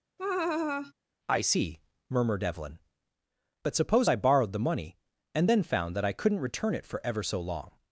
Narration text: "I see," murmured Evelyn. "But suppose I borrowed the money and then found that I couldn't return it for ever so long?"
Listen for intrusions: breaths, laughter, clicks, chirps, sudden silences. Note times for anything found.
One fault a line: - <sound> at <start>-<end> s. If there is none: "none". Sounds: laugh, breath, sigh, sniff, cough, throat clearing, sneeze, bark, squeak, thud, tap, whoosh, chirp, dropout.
- laugh at 0.2-0.9 s